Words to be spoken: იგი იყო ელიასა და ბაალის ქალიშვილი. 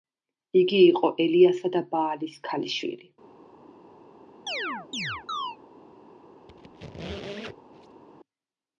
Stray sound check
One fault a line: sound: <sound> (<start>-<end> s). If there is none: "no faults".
sound: chirp (4.5-5.6 s)
sound: squeak (6.5-8.0 s)